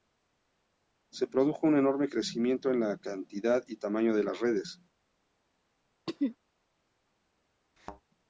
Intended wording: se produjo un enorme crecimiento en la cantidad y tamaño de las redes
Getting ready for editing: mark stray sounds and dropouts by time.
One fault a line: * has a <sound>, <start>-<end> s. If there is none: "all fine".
* has a throat clearing, 6.1-6.4 s
* has a thud, 7.8-8.0 s